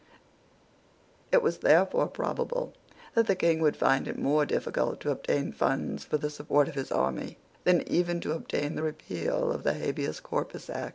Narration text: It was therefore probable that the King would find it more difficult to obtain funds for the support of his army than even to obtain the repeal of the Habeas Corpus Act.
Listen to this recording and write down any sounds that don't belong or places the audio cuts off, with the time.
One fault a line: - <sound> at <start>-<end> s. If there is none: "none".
none